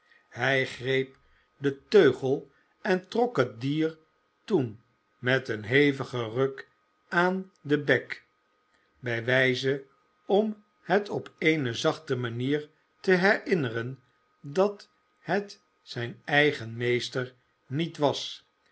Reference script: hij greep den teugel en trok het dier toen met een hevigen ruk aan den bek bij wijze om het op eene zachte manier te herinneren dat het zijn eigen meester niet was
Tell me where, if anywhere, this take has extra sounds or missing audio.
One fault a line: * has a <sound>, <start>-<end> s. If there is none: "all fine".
all fine